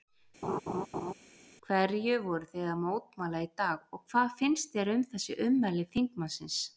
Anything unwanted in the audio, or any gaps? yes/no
yes